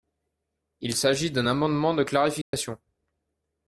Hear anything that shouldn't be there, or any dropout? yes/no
yes